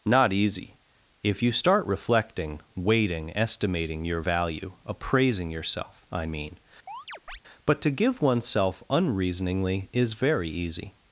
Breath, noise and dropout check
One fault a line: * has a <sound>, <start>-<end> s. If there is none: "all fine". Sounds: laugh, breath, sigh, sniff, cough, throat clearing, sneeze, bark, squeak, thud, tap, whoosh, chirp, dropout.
* has a chirp, 6.9-7.4 s